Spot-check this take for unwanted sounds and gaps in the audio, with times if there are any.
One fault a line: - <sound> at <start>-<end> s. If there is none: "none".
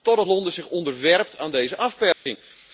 - dropout at 2.1-2.3 s